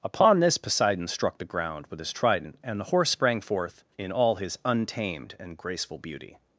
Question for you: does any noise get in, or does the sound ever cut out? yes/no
no